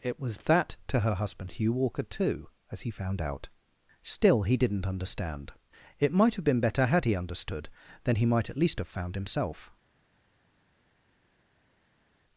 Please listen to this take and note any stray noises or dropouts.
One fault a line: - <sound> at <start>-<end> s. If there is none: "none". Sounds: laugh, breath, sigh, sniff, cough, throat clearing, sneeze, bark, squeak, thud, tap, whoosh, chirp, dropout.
none